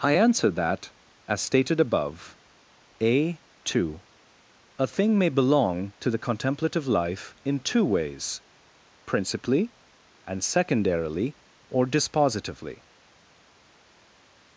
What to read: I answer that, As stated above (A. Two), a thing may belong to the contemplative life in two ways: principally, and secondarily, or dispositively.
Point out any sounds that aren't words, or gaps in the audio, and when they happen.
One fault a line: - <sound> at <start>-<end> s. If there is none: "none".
none